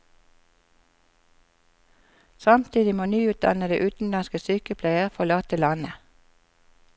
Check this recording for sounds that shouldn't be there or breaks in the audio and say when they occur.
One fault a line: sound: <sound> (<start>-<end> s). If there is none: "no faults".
no faults